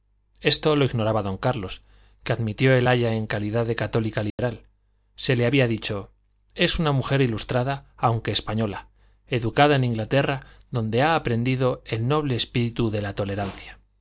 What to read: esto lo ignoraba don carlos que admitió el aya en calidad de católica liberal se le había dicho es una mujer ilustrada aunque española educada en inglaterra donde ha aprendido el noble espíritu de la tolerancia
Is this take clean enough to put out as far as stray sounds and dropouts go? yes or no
no